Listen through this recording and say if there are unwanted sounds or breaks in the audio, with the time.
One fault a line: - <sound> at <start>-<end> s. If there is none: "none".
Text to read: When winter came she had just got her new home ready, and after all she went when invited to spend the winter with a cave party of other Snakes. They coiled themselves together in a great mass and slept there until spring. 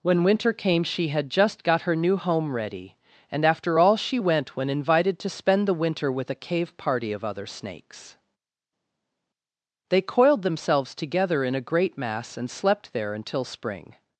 none